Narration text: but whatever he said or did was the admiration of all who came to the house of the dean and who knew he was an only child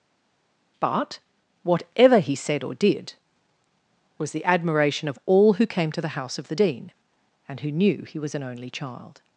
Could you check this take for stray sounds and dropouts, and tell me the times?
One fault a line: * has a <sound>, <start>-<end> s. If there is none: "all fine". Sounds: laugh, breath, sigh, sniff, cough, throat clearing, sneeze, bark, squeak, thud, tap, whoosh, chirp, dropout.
all fine